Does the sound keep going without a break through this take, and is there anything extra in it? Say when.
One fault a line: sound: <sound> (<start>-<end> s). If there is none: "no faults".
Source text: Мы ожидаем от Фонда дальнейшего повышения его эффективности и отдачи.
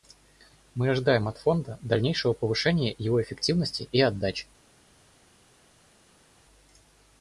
no faults